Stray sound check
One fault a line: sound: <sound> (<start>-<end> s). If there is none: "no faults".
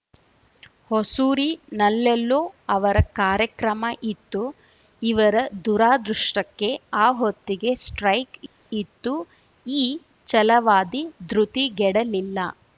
no faults